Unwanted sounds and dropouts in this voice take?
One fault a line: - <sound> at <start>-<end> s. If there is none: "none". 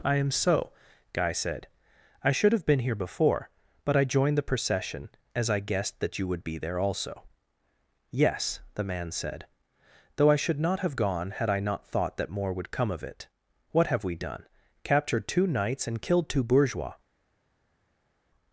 none